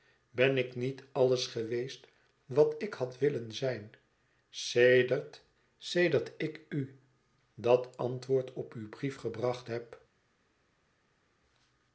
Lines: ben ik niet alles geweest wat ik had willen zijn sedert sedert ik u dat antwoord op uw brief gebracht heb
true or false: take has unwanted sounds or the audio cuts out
false